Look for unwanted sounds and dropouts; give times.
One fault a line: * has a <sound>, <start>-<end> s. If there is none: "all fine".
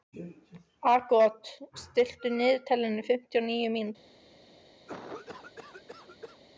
* has a cough, 4.9-6.4 s